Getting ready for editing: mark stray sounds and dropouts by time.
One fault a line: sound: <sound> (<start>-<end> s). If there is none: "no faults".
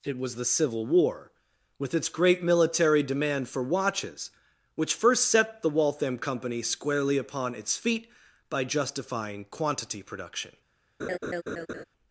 sound: laugh (11.0-11.8 s)